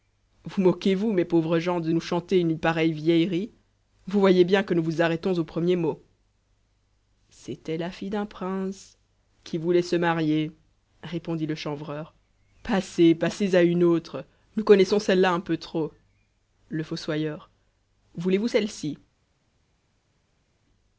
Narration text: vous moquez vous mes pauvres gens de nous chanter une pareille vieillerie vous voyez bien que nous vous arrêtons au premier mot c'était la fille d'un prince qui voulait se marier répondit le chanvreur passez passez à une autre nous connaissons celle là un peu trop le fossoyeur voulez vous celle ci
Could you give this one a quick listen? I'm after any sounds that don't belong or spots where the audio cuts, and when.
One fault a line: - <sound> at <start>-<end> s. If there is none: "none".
none